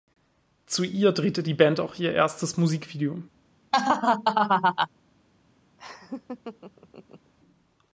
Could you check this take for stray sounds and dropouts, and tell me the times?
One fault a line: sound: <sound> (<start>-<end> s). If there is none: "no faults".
sound: laugh (3.7-4.9 s)
sound: laugh (5.8-7.3 s)